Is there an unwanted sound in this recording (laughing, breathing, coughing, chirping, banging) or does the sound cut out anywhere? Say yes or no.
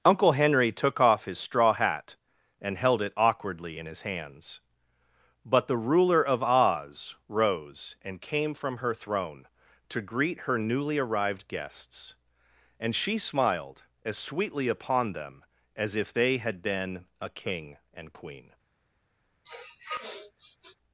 yes